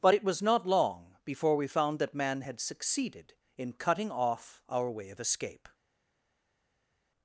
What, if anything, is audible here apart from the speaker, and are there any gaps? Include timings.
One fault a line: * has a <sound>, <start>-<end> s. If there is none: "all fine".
all fine